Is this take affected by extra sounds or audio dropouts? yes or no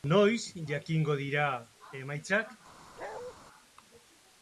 yes